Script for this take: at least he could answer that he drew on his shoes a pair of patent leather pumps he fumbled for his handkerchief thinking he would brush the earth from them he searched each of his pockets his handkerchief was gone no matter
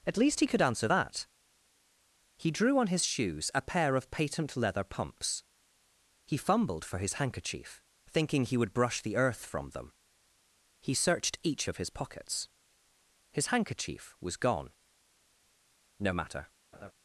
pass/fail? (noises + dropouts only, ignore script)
fail